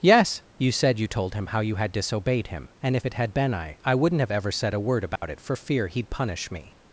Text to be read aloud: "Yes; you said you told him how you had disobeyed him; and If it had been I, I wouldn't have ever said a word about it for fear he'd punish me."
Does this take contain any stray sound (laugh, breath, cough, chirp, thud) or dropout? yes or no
yes